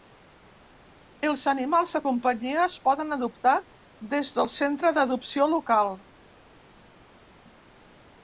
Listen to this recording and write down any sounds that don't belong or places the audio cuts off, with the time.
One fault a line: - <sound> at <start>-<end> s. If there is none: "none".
none